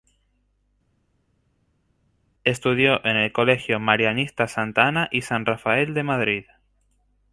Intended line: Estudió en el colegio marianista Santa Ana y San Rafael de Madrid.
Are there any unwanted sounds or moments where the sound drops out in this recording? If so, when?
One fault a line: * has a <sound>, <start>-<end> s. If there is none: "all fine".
all fine